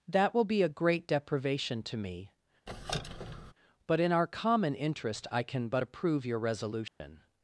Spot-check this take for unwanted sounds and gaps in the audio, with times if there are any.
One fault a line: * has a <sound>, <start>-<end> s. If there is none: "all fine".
* has a squeak, 2.7-3.5 s
* has a dropout, 6.9-7.0 s